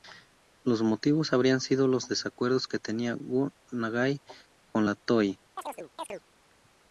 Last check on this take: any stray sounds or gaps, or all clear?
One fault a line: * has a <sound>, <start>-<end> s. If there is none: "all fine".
* has a chirp, 5.6-6.2 s